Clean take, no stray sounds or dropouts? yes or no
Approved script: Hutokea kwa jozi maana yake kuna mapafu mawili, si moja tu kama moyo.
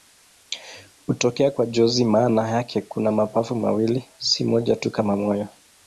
yes